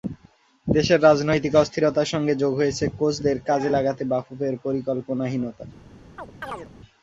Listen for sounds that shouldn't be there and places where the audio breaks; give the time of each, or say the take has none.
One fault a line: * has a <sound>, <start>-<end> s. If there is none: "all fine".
* has a chirp, 6.2-6.7 s